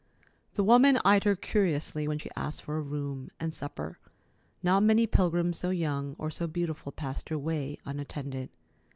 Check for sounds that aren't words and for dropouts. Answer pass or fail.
pass